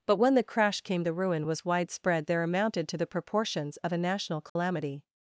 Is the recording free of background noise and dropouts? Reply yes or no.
no